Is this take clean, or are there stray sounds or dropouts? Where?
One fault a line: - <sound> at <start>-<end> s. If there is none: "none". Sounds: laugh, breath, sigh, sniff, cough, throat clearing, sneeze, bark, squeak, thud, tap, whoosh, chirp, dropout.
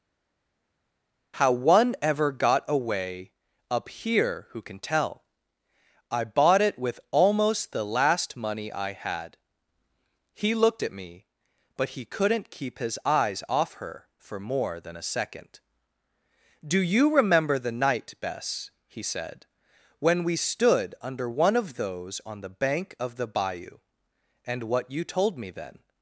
none